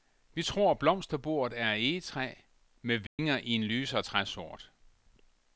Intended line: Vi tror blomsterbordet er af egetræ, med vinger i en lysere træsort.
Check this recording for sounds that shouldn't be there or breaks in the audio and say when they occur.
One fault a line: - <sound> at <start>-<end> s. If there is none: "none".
- dropout at 3.1-3.2 s